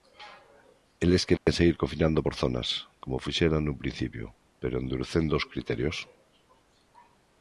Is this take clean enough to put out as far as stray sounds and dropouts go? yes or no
no